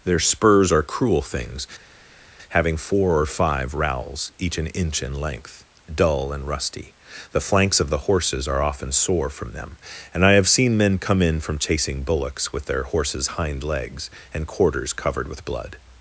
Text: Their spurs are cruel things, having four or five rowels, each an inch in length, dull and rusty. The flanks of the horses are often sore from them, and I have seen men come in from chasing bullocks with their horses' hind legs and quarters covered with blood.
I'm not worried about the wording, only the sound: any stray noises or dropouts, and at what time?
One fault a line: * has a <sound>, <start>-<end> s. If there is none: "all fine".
all fine